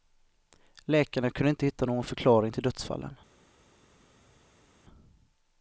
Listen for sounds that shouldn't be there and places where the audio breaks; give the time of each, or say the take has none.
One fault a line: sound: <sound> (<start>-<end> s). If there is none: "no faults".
no faults